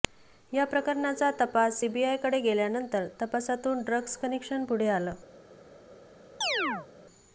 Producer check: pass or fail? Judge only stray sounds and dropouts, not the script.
fail